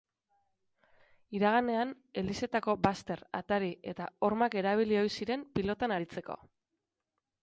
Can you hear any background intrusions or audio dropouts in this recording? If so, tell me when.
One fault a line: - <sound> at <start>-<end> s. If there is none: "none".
none